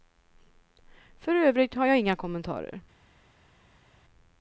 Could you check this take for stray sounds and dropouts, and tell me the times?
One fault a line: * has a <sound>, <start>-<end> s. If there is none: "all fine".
all fine